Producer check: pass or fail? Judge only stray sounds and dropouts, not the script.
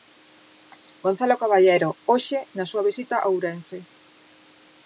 pass